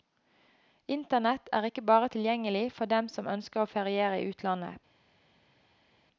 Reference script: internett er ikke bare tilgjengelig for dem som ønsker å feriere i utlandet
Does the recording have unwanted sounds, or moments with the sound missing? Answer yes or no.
no